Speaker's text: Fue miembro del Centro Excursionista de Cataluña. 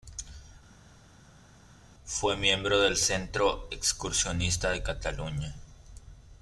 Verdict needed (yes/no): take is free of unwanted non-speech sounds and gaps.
yes